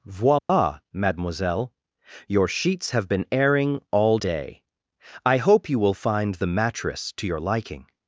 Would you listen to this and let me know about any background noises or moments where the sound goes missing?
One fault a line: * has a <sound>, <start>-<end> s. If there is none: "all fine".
* has a dropout, 0.4-0.5 s